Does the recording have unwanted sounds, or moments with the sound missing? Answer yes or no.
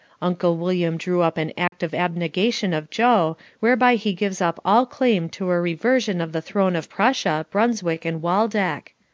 yes